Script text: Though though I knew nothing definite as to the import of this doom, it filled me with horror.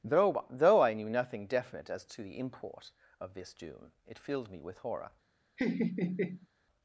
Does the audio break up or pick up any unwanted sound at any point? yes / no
yes